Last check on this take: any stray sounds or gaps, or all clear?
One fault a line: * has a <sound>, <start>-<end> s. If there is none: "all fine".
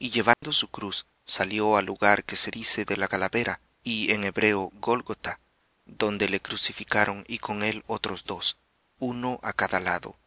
* has a dropout, 0.3-0.4 s